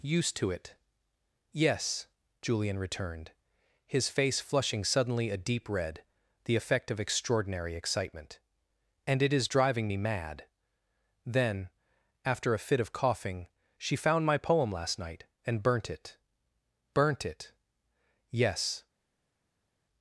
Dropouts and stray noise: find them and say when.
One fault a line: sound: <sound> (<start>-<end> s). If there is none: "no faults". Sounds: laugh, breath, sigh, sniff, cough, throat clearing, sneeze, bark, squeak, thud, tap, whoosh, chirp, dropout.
no faults